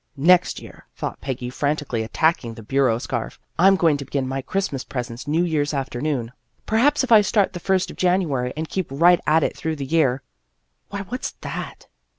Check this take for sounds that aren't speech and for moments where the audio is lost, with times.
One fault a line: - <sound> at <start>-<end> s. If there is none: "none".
none